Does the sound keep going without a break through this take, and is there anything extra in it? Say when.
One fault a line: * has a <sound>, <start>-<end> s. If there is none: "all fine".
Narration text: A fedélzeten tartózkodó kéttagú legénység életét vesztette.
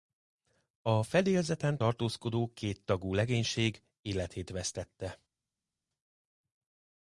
all fine